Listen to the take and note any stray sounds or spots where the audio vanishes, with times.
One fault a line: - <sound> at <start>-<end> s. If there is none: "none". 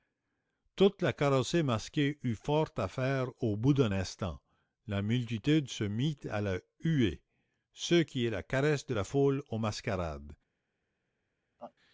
- laugh at 11.6-11.7 s